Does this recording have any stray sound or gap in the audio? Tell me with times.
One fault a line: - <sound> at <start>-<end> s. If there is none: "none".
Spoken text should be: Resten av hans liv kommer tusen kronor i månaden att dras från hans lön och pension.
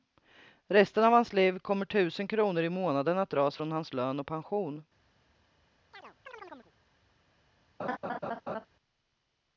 - chirp at 5.9-6.7 s
- laugh at 7.8-8.7 s